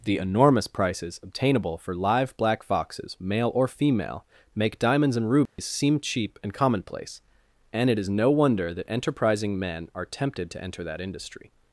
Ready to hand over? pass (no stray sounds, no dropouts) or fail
fail